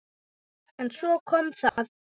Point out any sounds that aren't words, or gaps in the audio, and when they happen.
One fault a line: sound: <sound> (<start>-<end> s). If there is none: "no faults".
sound: dropout (1.7-1.8 s)